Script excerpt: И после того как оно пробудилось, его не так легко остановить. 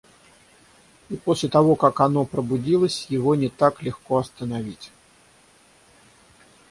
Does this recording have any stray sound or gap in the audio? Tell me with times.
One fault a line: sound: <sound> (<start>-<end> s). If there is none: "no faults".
no faults